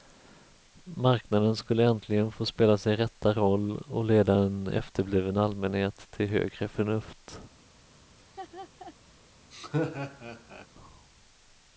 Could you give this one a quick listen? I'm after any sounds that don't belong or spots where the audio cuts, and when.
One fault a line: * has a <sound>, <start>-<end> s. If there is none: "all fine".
* has a laugh, 8.2-8.9 s
* has a laugh, 9.5-10.7 s